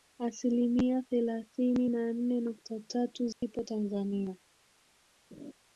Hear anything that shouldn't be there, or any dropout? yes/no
yes